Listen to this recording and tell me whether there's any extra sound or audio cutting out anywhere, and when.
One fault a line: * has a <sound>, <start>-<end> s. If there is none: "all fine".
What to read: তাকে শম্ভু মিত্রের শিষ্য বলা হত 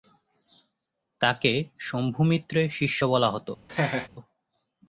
* has a laugh, 3.7-4.1 s